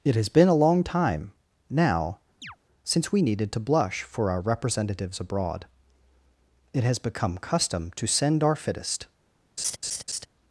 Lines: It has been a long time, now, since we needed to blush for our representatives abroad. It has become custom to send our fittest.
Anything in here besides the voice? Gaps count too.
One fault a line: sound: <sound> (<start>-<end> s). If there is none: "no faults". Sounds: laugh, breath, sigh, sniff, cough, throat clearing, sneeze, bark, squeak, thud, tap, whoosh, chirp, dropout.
sound: chirp (2.4-2.6 s)
sound: laugh (9.6-10.3 s)